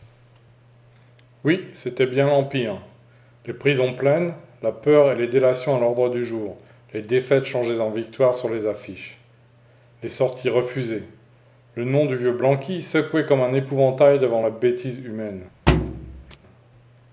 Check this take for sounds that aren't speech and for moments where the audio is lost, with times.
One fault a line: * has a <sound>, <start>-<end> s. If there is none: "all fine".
* has a thud, 15.7-16.4 s